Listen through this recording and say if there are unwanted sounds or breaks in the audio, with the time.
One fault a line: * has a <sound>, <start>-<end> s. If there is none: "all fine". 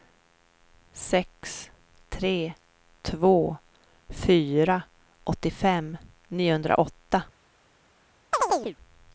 * has a chirp, 8.3-8.8 s